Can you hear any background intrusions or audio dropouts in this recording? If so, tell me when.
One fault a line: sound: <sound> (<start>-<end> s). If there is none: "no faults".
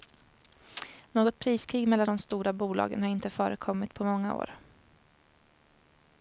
no faults